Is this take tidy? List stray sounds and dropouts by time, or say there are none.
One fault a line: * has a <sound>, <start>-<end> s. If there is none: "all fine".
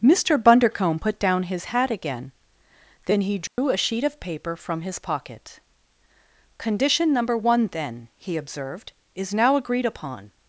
* has a dropout, 3.5-3.6 s